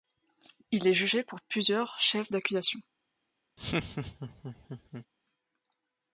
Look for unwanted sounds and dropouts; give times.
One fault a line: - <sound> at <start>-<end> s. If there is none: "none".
- laugh at 3.6-5.1 s